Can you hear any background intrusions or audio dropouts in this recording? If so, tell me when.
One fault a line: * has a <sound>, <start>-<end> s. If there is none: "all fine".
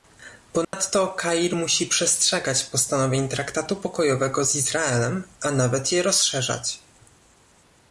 * has a dropout, 0.6-0.7 s